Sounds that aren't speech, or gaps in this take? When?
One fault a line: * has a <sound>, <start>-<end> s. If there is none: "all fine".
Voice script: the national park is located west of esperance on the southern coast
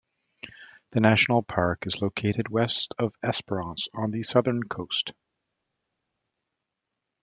all fine